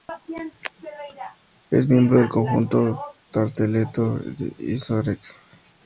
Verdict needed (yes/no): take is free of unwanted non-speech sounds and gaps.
yes